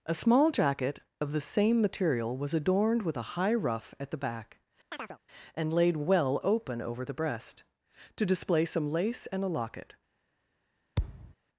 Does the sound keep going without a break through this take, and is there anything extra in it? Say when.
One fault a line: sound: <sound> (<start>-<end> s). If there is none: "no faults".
sound: chirp (4.9-5.2 s)
sound: thud (11.0-11.3 s)